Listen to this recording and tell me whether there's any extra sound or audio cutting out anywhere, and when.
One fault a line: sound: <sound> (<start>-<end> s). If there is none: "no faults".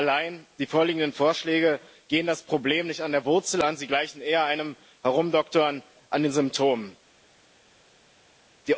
no faults